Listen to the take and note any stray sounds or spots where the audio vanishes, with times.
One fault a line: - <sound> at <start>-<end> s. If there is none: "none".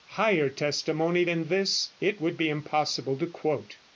none